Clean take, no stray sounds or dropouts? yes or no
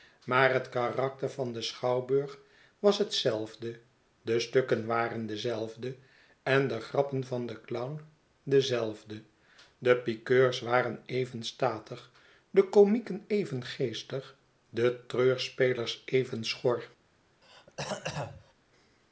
no